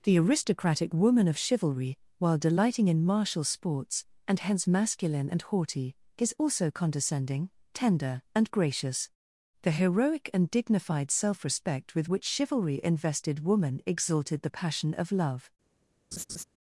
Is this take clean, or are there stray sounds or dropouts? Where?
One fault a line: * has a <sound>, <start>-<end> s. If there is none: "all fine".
* has a laugh, 16.1-16.4 s